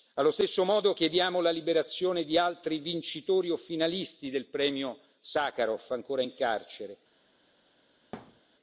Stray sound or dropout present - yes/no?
yes